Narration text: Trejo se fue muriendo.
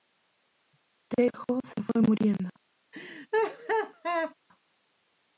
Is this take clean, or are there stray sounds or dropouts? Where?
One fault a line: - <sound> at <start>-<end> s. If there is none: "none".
- laugh at 2.9-4.3 s